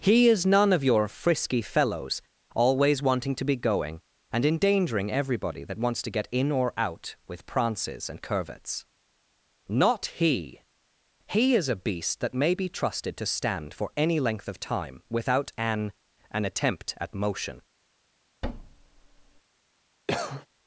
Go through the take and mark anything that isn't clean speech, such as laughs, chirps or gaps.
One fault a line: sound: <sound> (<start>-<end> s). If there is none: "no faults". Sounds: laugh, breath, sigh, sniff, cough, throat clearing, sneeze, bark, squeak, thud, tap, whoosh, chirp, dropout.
sound: thud (18.4-19.4 s)
sound: cough (20.1-20.5 s)